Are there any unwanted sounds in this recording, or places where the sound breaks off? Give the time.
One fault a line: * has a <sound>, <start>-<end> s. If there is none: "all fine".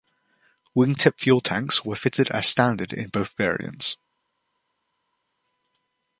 all fine